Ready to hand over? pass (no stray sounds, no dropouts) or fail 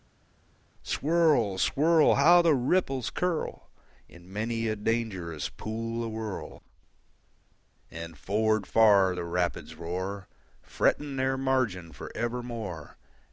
pass